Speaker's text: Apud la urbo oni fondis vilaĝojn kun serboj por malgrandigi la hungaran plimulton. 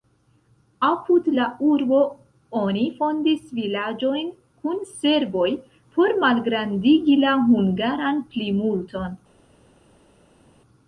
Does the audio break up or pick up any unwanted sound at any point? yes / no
no